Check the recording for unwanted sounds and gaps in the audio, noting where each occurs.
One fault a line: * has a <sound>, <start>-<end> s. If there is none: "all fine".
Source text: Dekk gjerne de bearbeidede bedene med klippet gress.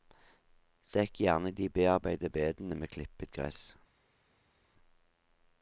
all fine